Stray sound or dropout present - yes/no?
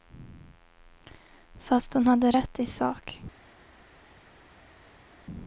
no